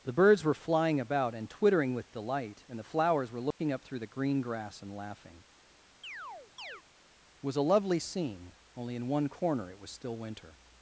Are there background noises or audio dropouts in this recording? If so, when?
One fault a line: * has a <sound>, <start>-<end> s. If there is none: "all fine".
* has a dropout, 3.5-3.6 s
* has a chirp, 6.0-6.8 s